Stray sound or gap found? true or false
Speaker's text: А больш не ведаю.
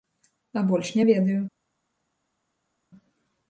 false